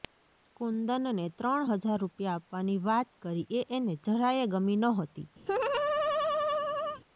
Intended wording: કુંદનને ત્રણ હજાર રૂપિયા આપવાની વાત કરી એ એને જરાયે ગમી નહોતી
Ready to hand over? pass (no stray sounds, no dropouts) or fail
fail